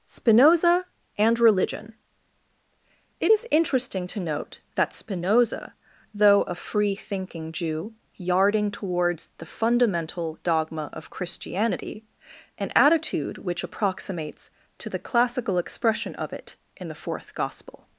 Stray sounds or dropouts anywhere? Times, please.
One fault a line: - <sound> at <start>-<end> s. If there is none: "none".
none